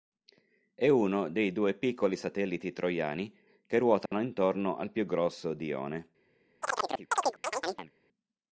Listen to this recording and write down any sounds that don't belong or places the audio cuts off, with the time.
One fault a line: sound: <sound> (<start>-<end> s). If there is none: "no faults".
sound: dropout (4.1-4.1 s)
sound: chirp (6.6-7.9 s)